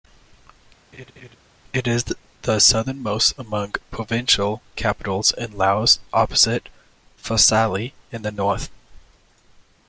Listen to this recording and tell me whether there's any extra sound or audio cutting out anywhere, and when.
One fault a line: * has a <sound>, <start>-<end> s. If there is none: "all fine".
* has a laugh, 0.9-1.4 s